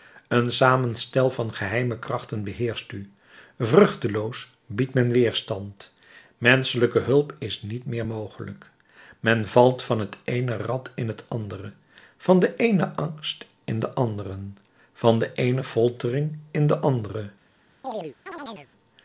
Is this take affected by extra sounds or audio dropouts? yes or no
yes